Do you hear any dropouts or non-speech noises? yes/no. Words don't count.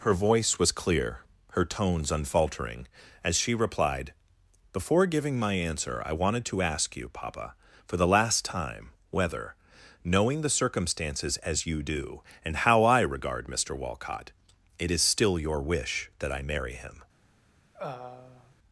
yes